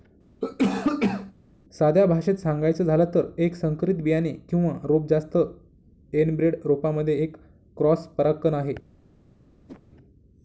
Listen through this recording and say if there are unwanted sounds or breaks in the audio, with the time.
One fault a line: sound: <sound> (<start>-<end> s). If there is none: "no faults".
sound: cough (0.4-1.3 s)
sound: whoosh (9.7-9.8 s)